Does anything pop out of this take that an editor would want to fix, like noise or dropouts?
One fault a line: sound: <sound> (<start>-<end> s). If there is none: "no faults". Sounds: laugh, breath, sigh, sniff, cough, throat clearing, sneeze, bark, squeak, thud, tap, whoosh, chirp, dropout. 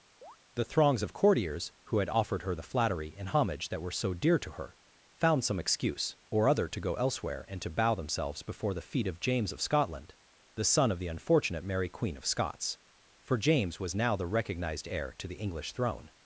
sound: chirp (0.2-0.4 s)